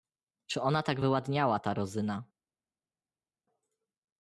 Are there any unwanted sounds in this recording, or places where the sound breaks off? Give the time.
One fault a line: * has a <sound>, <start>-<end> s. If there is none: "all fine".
all fine